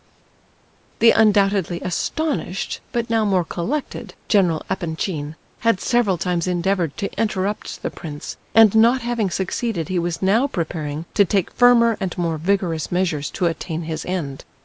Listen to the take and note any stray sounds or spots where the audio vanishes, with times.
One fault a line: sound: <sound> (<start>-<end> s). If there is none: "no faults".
no faults